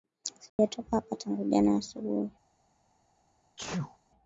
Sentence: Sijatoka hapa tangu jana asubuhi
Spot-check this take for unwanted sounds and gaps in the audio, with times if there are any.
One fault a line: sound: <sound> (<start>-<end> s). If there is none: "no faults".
sound: dropout (0.5-0.6 s)
sound: sneeze (3.6-4.0 s)